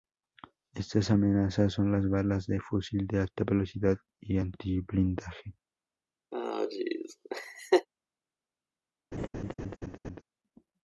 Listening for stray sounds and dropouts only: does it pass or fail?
fail